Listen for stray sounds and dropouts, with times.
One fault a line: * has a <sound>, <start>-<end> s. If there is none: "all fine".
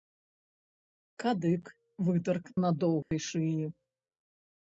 * has a dropout, 3.0-3.1 s